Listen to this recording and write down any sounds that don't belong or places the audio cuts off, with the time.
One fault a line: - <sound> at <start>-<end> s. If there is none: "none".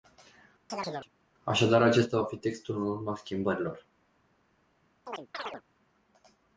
- chirp at 0.7-1.1 s
- chirp at 5.1-5.6 s